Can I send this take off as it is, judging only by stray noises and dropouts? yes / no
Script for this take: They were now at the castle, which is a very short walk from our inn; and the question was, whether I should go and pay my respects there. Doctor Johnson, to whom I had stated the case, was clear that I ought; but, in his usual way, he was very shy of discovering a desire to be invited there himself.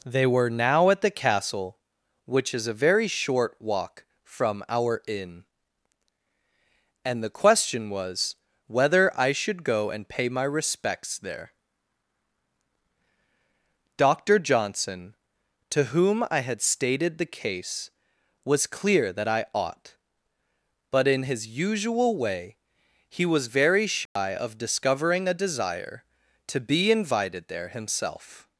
no